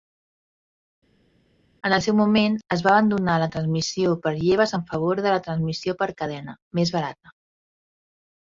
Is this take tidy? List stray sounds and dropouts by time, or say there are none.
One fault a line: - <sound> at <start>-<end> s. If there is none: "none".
none